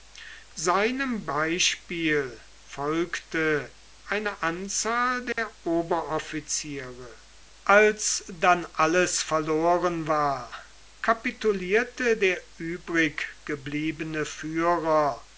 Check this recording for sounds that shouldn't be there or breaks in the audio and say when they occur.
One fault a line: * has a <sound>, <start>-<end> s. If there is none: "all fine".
* has a dropout, 5.3-5.4 s